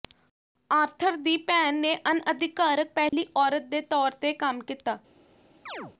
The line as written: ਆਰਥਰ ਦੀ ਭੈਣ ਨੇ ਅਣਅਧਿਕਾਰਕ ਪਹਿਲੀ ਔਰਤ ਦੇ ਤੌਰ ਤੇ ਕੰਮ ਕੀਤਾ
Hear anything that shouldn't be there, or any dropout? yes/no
yes